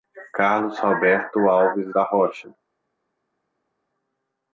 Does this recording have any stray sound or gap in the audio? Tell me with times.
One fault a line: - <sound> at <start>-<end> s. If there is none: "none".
none